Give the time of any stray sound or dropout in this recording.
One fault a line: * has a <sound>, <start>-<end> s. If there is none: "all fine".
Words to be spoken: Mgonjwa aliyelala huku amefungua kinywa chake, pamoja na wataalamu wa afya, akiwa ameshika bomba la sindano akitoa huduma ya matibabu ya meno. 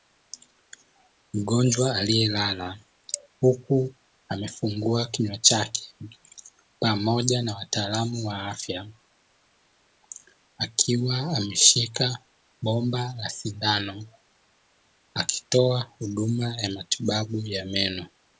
all fine